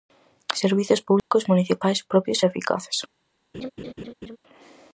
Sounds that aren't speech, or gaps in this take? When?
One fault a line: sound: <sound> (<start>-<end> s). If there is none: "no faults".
sound: dropout (1.2-1.3 s)
sound: laugh (3.5-4.4 s)